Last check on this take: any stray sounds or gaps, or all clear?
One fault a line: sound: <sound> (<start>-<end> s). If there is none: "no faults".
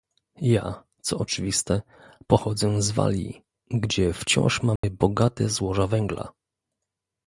sound: dropout (4.8-4.8 s)